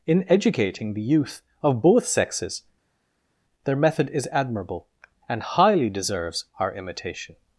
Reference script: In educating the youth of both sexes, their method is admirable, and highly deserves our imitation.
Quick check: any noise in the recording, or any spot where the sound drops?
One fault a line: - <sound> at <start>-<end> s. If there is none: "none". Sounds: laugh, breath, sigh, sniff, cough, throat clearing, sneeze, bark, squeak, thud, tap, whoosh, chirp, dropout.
none